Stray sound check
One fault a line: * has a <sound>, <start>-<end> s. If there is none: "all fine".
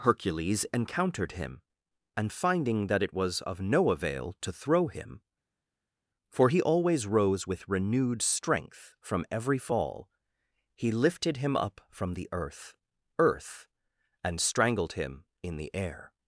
all fine